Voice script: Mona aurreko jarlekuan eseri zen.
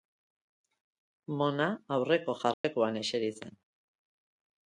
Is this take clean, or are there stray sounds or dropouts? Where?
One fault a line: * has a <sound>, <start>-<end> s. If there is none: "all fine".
* has a dropout, 2.5-2.6 s